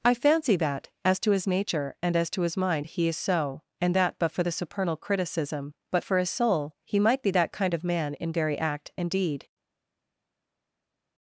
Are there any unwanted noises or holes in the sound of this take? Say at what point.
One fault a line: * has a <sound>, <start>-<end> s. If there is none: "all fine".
all fine